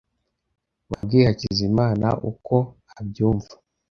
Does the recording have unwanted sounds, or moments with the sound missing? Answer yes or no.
yes